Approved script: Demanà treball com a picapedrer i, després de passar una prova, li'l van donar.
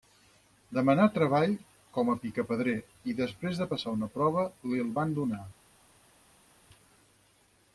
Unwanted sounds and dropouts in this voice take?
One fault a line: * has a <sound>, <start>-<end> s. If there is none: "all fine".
all fine